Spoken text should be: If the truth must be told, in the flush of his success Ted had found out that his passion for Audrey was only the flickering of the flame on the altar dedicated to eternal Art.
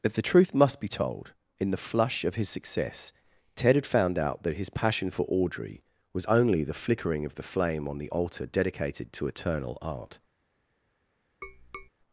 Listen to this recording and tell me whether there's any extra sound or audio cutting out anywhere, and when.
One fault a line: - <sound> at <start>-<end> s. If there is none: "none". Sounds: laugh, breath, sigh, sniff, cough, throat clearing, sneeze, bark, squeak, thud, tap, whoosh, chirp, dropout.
- tap at 11.4-11.9 s